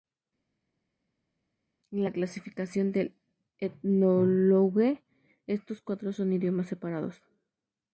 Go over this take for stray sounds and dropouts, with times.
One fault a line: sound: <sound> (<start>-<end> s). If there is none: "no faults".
no faults